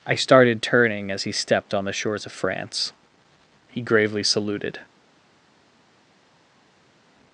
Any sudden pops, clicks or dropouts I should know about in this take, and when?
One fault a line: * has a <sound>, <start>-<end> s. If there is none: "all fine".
all fine